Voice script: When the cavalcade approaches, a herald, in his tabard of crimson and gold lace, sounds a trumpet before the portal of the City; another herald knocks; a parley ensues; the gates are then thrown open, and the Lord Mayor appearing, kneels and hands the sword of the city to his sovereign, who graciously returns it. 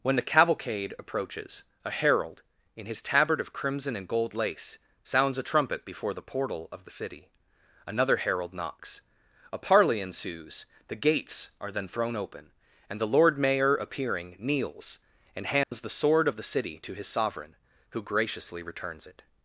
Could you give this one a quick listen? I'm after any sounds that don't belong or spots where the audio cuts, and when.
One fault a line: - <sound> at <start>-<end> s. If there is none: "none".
- dropout at 15.6-15.7 s